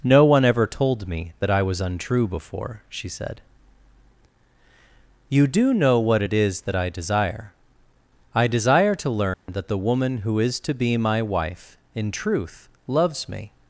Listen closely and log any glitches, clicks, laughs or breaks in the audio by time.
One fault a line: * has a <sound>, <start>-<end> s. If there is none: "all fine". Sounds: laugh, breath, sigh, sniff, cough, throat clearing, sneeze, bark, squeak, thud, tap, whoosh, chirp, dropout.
* has a dropout, 9.3-9.5 s